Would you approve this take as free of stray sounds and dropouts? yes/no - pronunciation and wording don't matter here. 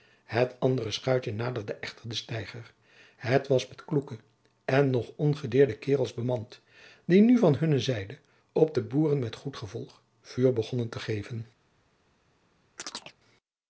no